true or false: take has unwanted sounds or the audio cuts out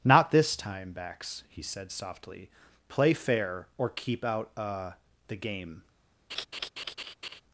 true